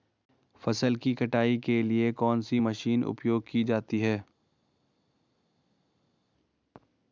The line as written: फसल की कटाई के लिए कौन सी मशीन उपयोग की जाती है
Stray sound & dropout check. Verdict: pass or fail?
pass